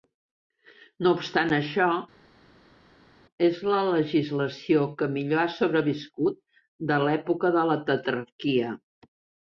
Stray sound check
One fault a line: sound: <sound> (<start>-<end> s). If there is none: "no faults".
no faults